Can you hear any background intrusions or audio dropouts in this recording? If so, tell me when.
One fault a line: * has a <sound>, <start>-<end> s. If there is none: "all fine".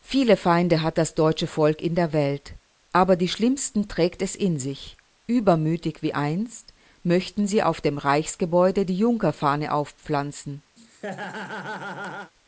* has a laugh, 10.8-12.3 s